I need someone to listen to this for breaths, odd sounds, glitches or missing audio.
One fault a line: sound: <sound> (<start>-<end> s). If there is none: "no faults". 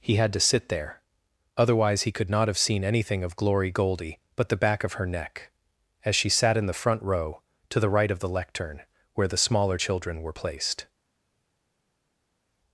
no faults